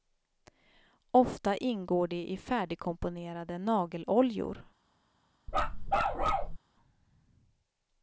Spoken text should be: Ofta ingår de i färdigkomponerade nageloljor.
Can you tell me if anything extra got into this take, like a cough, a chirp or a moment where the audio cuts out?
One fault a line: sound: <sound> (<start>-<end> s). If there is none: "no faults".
sound: bark (5.5-6.6 s)